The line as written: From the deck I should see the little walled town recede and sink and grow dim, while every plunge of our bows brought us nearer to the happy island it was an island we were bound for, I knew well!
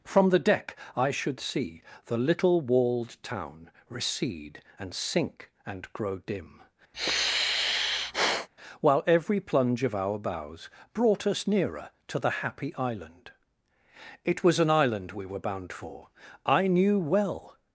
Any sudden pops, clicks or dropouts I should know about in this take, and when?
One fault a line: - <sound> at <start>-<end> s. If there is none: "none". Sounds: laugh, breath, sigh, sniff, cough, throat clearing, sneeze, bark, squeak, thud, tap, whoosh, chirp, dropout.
- sigh at 6.9-8.5 s